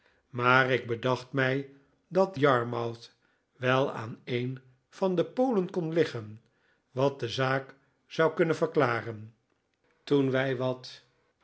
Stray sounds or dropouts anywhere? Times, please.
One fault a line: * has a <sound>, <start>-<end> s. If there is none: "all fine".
all fine